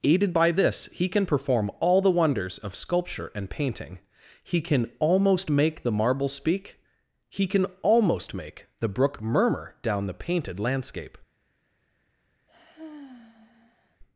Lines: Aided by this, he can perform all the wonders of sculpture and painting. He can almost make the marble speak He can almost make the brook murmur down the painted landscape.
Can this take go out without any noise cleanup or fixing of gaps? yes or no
no